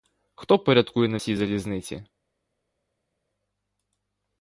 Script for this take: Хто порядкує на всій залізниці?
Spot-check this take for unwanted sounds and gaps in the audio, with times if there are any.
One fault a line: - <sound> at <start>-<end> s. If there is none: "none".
none